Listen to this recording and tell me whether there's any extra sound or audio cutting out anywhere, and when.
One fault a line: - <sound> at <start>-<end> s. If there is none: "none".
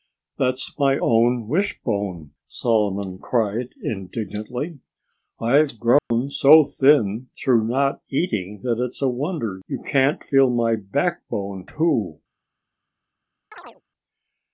- dropout at 6.0-6.1 s
- chirp at 13.5-13.8 s